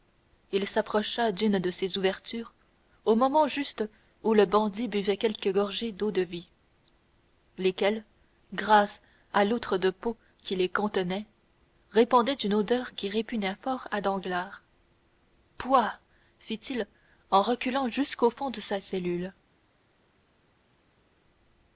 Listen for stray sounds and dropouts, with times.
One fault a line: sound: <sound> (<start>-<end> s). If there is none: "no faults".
no faults